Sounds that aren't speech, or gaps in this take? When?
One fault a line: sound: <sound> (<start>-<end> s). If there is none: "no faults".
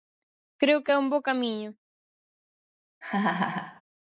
sound: laugh (3.0-3.8 s)